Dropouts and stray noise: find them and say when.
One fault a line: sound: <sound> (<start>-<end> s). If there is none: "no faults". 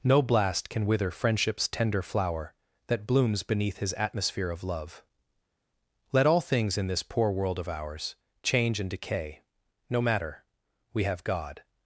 no faults